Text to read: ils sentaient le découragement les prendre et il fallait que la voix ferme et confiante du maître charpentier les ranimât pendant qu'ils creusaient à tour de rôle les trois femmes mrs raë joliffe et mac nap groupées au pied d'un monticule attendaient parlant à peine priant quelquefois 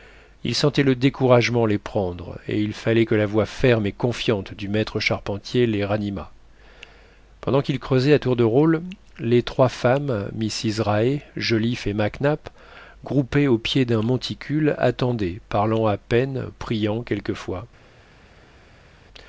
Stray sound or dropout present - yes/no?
no